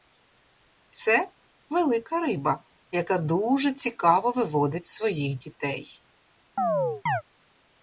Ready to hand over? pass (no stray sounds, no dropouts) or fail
fail